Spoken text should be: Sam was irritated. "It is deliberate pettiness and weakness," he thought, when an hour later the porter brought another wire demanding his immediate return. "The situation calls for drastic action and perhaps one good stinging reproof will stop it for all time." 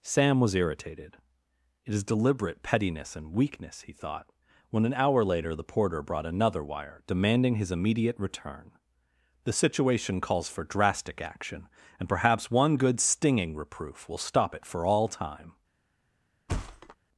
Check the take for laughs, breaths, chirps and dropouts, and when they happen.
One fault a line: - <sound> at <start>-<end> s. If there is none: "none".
- thud at 16.5-17.0 s